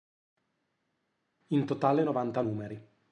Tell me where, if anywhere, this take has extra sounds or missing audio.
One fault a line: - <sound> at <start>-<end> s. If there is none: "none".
none